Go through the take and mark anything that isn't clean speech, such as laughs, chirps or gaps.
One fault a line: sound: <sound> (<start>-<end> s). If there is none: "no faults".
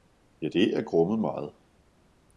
no faults